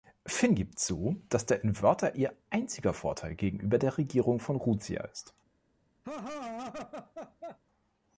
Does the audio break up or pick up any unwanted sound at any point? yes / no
yes